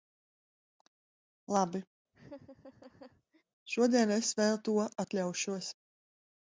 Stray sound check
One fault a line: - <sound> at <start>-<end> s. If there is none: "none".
- laugh at 2.1-3.4 s